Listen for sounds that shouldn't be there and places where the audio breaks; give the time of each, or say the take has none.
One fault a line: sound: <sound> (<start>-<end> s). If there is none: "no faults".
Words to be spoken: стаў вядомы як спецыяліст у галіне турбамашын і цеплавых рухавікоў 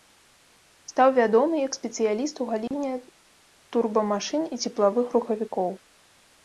sound: dropout (2.7-2.7 s)